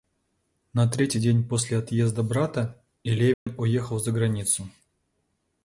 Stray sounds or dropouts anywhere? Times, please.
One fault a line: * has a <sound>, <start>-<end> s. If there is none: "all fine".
* has a dropout, 3.3-3.5 s